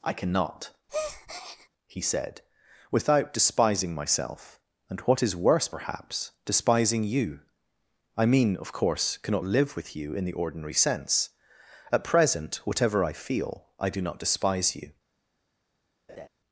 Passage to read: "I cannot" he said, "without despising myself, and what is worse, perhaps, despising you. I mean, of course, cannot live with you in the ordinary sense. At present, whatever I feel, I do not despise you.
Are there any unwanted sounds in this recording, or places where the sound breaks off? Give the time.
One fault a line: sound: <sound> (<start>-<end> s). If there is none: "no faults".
sound: breath (0.9-1.7 s)
sound: laugh (16.1-16.3 s)